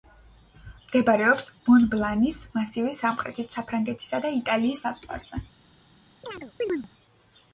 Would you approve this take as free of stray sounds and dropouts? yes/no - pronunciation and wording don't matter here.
no